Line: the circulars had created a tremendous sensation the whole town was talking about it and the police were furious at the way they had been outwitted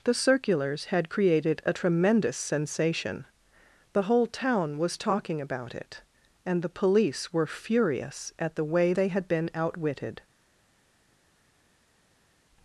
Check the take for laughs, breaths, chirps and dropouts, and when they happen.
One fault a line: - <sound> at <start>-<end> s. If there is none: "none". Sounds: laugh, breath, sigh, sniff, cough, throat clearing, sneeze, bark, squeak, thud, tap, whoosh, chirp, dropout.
none